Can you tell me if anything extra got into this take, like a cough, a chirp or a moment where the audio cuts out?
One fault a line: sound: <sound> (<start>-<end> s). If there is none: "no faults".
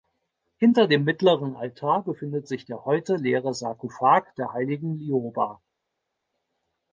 no faults